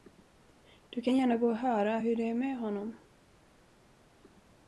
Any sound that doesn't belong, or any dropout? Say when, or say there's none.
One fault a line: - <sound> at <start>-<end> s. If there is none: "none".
none